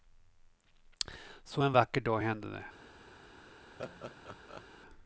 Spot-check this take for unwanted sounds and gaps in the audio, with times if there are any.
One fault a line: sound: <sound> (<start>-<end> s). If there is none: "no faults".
sound: laugh (3.8-4.7 s)